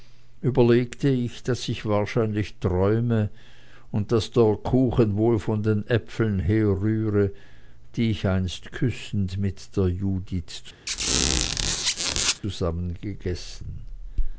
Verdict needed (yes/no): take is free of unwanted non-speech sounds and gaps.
no